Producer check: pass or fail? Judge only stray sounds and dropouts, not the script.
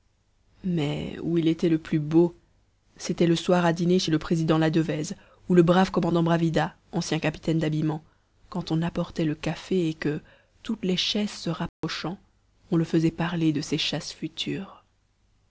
fail